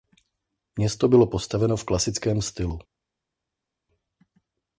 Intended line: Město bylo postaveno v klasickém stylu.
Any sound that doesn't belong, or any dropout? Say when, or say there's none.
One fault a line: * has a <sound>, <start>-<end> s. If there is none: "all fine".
all fine